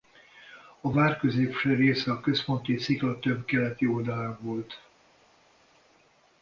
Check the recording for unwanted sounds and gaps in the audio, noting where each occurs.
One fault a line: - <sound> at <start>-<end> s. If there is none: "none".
none